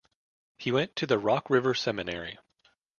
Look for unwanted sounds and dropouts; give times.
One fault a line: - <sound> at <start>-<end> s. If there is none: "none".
none